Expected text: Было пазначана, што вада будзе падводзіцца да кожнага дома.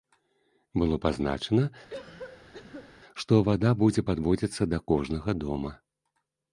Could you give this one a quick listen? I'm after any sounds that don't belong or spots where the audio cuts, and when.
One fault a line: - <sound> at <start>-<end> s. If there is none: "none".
- cough at 1.9-2.9 s